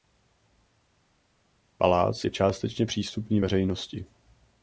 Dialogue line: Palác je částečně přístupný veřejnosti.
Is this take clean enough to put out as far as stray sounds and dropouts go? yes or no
yes